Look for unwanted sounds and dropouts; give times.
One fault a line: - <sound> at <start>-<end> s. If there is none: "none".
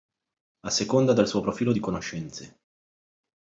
none